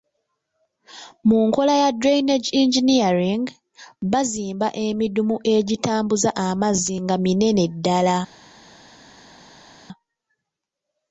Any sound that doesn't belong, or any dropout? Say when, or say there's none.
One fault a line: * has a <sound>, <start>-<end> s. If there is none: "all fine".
all fine